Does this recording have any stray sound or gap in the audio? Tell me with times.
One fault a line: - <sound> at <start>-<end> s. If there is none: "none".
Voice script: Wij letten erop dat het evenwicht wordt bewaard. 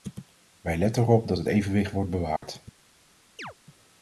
- dropout at 2.4-2.4 s
- chirp at 3.4-3.5 s